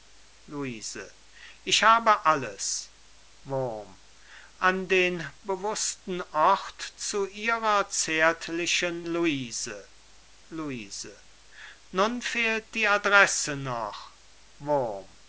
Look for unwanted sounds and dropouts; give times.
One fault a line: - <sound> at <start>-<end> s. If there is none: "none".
none